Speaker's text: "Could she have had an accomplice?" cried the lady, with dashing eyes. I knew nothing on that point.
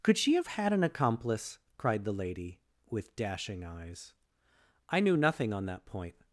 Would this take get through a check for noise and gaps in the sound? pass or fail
pass